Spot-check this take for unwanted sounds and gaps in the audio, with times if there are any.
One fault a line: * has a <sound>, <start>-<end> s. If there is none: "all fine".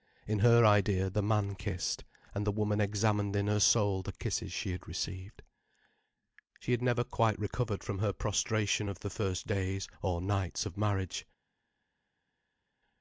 all fine